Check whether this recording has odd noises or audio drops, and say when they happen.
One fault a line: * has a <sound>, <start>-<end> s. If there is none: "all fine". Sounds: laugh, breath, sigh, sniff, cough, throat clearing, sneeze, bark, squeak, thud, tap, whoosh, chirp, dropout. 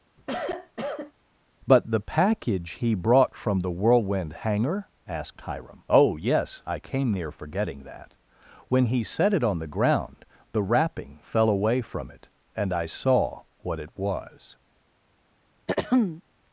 * has a cough, 0.2-1.1 s
* has a throat clearing, 15.7-16.2 s